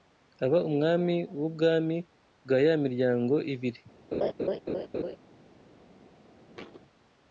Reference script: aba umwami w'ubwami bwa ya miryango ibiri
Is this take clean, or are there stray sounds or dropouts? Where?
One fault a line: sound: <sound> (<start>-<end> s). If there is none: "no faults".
sound: laugh (4.1-5.2 s)
sound: thud (6.5-6.8 s)